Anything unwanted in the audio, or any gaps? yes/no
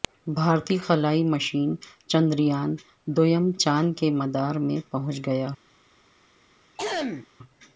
yes